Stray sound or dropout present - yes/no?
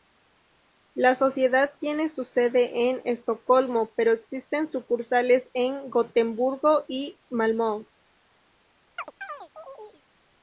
yes